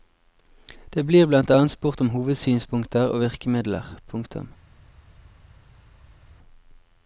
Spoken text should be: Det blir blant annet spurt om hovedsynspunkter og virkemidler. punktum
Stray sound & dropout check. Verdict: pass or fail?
pass